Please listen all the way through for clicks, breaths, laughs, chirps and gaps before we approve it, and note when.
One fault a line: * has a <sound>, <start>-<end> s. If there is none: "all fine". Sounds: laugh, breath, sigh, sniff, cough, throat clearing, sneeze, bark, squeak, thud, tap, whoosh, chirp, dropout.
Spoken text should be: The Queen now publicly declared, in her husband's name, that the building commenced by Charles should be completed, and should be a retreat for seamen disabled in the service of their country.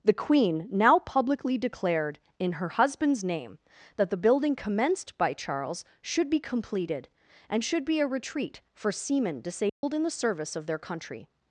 * has a dropout, 9.7-9.8 s